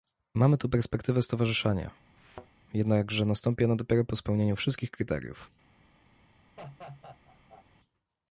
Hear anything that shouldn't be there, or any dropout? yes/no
yes